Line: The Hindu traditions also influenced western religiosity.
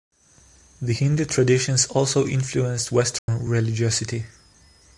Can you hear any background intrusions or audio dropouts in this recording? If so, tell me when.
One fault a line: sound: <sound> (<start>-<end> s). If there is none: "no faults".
sound: dropout (3.2-3.3 s)